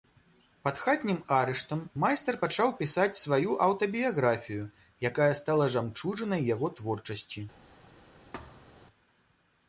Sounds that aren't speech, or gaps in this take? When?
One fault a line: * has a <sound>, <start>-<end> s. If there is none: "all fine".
* has a thud, 8.3-8.9 s